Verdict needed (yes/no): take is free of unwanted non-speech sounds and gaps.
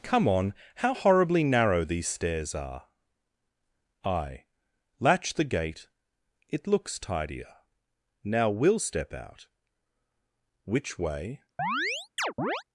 no